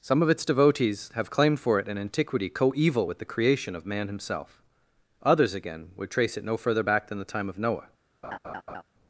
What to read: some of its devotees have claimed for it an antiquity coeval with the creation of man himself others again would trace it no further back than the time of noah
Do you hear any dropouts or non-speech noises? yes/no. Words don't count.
yes